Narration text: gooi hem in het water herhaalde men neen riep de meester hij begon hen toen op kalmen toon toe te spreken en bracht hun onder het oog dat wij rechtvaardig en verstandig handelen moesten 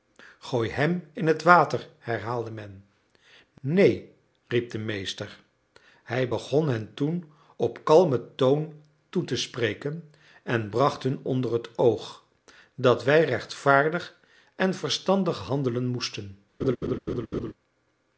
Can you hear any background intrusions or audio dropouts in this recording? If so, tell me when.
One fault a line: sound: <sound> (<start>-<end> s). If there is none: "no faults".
sound: laugh (16.6-17.5 s)